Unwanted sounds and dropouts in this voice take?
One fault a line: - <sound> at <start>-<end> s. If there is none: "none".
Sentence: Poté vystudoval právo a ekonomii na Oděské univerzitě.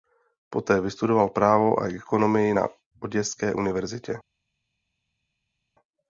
none